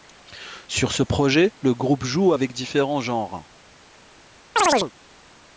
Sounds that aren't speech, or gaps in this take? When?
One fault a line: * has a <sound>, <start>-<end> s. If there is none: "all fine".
* has a chirp, 4.6-4.9 s